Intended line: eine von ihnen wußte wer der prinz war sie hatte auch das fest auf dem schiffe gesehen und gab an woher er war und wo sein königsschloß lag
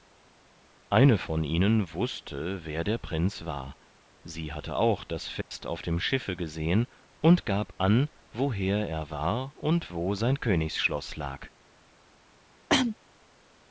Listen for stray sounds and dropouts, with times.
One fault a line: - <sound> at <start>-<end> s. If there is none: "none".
- dropout at 5.4-5.5 s
- cough at 12.7-13.0 s